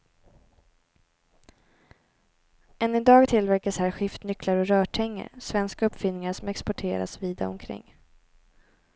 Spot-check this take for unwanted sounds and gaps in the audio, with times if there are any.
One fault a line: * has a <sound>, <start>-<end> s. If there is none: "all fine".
all fine